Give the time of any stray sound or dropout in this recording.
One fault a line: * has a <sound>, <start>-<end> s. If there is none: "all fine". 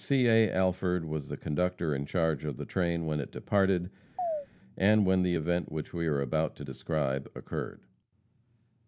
* has a chirp, 4.2-4.5 s